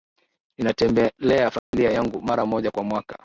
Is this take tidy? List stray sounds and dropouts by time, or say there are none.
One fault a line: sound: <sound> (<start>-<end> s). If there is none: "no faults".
sound: dropout (1.6-1.7 s)